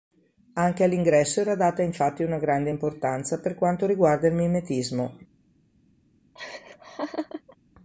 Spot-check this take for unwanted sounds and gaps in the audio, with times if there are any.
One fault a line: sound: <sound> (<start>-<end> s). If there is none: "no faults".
sound: laugh (6.4-7.6 s)